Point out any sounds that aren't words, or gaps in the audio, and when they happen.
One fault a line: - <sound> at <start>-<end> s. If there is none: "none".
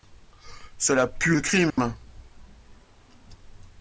- dropout at 1.7-1.8 s